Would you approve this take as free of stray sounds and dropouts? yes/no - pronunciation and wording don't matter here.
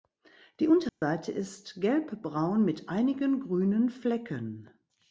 no